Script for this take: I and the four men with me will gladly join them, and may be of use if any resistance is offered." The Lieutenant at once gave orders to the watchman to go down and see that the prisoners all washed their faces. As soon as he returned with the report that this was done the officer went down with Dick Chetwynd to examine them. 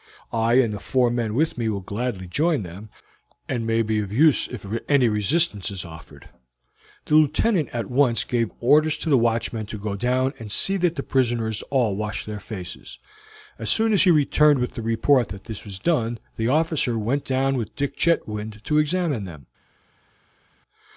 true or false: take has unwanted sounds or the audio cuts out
false